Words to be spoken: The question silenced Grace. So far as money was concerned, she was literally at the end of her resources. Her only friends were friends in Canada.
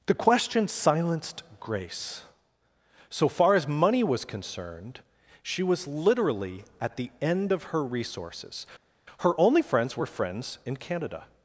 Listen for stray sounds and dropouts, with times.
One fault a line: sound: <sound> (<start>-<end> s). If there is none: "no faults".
no faults